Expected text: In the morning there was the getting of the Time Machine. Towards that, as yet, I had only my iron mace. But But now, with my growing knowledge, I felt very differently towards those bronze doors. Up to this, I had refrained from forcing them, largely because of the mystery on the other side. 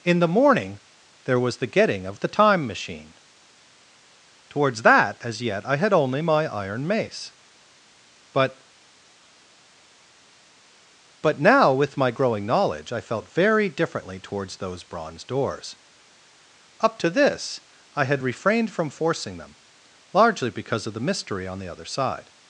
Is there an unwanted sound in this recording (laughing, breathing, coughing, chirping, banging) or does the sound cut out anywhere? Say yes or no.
no